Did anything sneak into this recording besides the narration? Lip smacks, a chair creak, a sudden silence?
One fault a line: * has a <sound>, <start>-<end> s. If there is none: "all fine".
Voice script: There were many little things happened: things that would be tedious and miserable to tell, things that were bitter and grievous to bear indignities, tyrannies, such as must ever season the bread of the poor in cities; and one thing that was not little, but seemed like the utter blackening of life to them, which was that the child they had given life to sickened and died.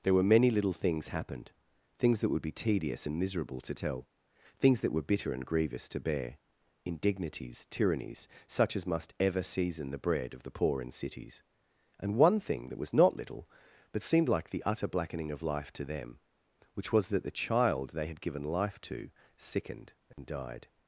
* has a dropout, 20.1-20.2 s